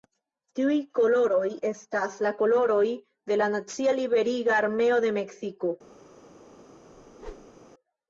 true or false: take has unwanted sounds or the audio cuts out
true